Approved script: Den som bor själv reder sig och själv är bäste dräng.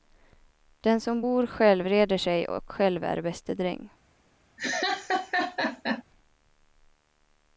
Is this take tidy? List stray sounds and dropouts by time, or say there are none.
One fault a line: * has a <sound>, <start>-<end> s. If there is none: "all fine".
* has a laugh, 4.6-6.0 s